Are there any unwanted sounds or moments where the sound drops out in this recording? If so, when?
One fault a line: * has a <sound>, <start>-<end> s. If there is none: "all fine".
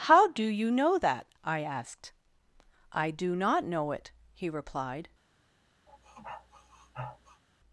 * has a sniff, 5.9-7.4 s